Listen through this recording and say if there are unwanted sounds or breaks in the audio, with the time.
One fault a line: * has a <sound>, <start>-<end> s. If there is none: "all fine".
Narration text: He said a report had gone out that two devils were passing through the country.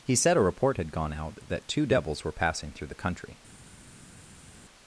all fine